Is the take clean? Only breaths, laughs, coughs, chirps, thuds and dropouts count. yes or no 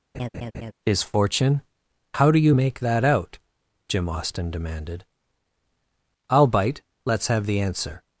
no